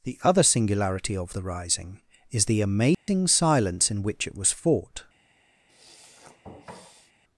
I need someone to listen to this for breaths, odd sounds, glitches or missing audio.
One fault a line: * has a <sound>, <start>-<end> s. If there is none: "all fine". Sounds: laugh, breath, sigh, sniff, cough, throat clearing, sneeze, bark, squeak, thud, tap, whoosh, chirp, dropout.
* has a dropout, 2.9-3.1 s
* has a sniff, 5.7-7.1 s